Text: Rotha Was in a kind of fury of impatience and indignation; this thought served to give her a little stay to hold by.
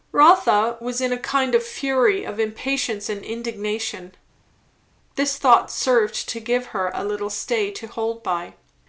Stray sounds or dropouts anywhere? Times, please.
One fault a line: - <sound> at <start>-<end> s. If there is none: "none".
none